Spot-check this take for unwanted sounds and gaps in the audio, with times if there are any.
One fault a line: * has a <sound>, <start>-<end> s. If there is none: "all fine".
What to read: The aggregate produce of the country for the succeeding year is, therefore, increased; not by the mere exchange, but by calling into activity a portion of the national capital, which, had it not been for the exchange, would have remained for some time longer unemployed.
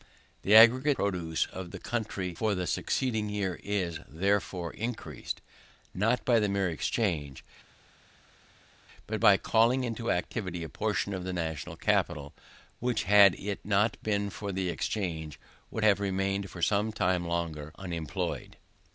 all fine